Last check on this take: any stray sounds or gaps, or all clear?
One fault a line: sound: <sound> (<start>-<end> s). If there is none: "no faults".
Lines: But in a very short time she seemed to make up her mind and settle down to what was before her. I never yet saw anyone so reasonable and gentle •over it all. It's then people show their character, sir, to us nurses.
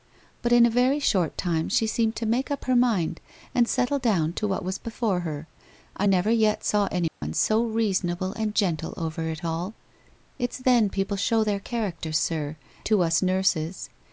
sound: dropout (7.1-7.2 s)